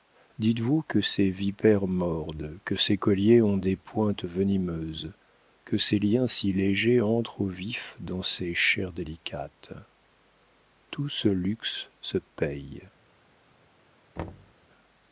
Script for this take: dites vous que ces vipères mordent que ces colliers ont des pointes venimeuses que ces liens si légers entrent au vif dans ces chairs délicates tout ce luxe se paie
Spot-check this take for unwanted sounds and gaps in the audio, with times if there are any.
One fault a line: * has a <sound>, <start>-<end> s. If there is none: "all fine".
* has a thud, 14.2-14.5 s